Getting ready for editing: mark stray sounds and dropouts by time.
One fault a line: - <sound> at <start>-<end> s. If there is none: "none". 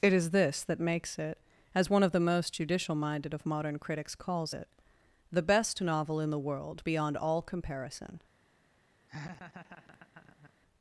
- laugh at 9.1-10.5 s